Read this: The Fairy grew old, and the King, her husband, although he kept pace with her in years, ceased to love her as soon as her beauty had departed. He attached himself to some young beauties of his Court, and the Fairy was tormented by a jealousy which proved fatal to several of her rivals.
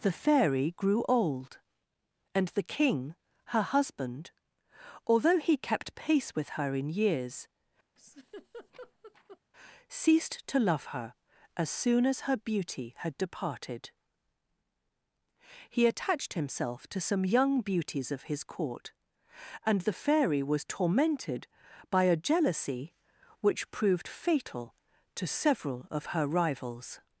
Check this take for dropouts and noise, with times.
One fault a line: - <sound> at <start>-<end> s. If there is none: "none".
- laugh at 8.0-9.4 s